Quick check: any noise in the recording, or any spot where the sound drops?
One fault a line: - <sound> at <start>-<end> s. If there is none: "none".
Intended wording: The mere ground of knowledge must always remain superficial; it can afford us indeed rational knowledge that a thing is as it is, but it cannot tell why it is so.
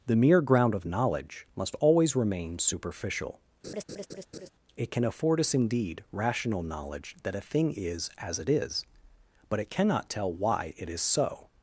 - laugh at 3.6-4.5 s